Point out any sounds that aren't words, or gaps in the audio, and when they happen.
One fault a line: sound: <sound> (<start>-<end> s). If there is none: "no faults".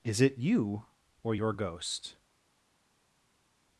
no faults